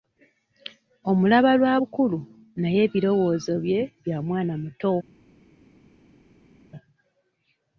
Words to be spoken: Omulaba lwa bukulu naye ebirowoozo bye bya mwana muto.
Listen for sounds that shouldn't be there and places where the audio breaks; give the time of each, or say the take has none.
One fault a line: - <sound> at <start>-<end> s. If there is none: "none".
none